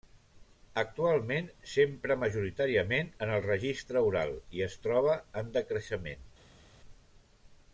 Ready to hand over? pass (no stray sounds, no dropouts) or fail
pass